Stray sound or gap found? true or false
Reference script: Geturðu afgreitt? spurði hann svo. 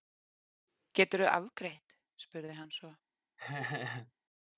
true